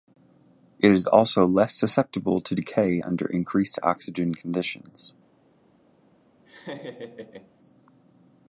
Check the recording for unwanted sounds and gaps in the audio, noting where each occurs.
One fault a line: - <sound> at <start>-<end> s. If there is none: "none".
- laugh at 6.4-7.5 s